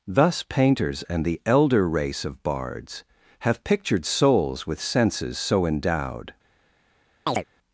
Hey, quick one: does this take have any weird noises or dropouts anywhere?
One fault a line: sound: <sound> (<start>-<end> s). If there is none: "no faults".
sound: chirp (7.3-7.4 s)